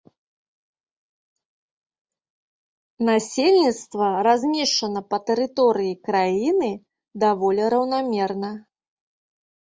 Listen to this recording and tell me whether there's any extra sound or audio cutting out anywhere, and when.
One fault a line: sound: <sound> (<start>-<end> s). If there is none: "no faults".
no faults